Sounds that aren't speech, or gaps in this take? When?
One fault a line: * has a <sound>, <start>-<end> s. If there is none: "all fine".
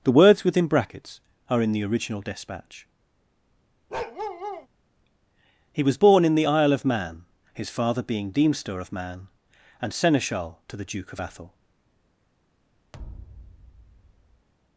* has a bark, 3.9-4.7 s
* has a thud, 12.9-14.5 s